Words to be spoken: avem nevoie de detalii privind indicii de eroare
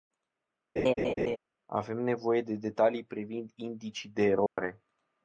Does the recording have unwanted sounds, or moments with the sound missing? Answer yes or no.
yes